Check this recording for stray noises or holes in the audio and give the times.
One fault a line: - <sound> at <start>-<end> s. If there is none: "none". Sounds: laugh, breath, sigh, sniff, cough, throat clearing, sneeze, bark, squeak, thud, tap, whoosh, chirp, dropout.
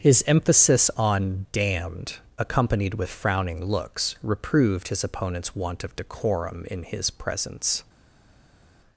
none